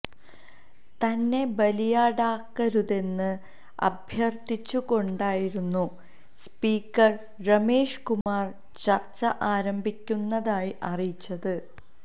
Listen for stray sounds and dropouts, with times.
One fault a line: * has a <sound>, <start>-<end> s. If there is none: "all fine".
* has a dropout, 8.2-8.3 s